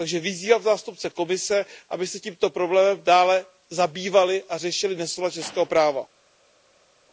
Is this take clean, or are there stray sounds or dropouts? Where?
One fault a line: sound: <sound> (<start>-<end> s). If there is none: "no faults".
no faults